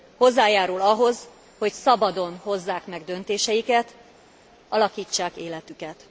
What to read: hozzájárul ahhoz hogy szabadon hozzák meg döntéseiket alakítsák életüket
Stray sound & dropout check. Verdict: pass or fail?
pass